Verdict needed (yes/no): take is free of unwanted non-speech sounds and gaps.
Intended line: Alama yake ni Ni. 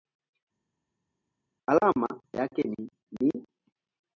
yes